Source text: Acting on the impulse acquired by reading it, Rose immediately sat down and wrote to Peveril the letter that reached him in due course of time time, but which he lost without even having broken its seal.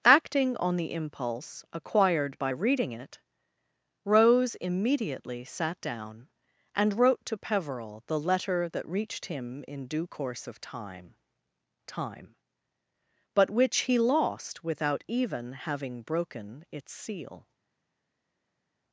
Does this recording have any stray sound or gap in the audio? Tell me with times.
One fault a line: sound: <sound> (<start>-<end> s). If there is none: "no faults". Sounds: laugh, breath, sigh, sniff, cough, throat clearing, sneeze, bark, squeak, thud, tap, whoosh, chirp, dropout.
no faults